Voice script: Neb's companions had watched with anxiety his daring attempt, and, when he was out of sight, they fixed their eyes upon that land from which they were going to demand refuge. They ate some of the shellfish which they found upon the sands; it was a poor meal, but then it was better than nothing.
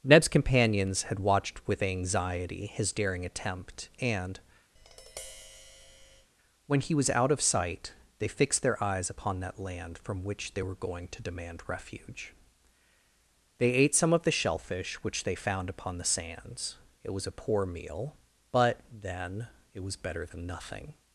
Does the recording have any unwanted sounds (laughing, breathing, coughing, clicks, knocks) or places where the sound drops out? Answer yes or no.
yes